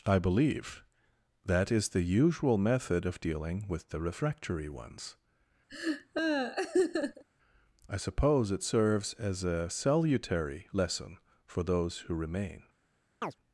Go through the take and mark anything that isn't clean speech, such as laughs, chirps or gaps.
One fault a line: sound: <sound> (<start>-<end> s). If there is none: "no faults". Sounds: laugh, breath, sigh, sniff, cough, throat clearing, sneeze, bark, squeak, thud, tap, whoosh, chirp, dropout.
sound: laugh (5.7-7.2 s)
sound: chirp (13.2-13.4 s)